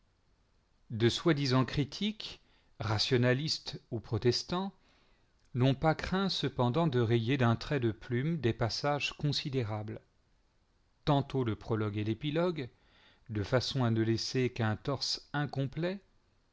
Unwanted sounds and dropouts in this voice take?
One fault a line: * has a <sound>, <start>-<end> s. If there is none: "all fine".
all fine